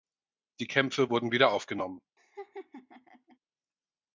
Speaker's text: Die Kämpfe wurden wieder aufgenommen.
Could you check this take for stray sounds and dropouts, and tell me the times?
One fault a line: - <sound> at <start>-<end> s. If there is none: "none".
- laugh at 2.2-3.4 s